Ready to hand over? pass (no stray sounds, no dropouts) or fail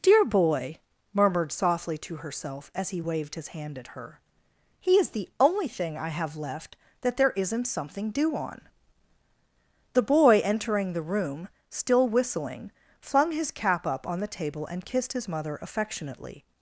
pass